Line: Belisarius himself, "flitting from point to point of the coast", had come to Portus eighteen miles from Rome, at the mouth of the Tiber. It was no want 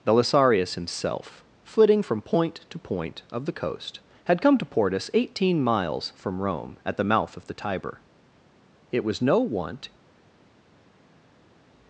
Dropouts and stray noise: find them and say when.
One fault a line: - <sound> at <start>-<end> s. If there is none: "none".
none